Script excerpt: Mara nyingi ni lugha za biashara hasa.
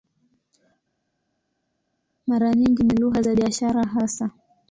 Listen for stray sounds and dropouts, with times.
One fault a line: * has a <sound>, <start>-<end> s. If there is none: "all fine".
all fine